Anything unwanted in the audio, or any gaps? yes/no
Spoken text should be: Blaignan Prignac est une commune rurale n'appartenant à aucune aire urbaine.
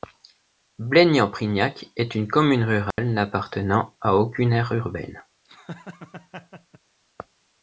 yes